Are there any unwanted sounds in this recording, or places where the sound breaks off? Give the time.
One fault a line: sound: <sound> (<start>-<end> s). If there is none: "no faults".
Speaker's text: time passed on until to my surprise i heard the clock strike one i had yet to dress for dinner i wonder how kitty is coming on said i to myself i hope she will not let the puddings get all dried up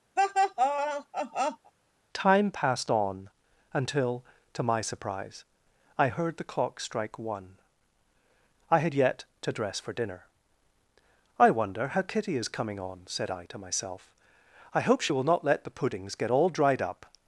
sound: laugh (0.2-1.7 s)